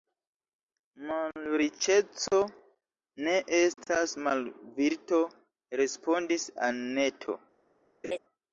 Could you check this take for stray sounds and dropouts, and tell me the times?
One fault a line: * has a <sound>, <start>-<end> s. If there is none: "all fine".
* has a laugh, 8.0-8.2 s